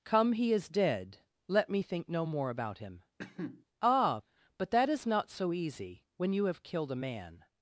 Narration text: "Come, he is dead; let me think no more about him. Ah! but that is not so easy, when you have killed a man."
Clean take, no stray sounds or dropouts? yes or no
no